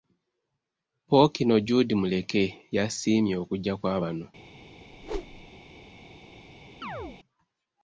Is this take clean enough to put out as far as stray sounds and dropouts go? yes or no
no